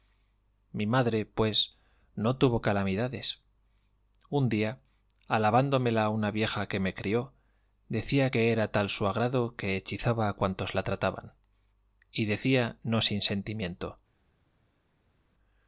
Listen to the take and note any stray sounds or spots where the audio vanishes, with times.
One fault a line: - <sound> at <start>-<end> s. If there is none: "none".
none